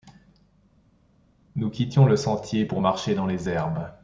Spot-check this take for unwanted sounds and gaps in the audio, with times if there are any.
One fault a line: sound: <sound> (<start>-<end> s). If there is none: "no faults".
no faults